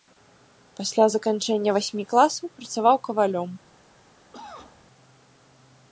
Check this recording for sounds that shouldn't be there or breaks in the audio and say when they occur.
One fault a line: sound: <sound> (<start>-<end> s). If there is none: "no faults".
sound: cough (4.3-4.9 s)